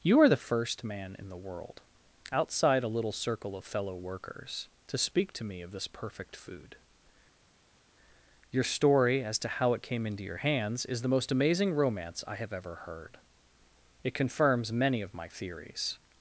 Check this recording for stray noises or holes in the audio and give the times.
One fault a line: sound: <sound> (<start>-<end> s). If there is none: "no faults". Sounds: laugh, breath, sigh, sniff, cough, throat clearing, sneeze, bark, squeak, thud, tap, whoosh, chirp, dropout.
no faults